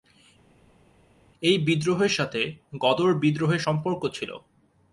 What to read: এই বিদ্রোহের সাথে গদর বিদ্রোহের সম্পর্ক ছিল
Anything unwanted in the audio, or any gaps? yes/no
no